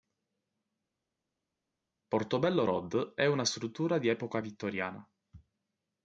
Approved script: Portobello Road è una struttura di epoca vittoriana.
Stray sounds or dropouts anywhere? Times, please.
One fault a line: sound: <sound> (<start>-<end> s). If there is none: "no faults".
no faults